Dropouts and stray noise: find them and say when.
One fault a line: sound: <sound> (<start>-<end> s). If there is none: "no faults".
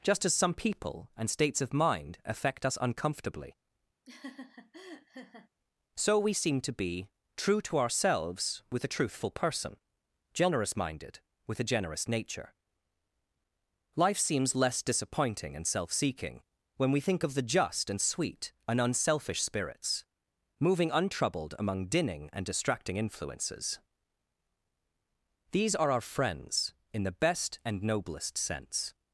sound: laugh (4.1-5.5 s)